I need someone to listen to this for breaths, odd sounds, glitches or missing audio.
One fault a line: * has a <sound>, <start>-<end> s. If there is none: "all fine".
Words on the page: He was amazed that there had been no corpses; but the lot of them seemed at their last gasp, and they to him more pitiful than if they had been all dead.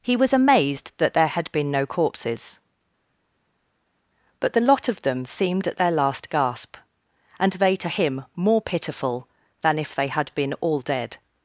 all fine